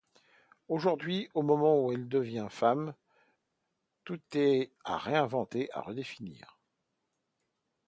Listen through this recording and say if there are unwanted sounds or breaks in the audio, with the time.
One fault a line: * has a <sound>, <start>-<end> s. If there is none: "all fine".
all fine